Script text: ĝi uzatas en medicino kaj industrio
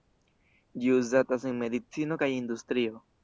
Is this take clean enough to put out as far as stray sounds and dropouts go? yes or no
yes